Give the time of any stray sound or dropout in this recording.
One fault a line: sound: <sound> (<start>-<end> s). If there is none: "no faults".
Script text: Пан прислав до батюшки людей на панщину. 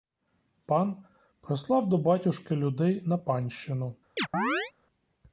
sound: chirp (4.2-4.7 s)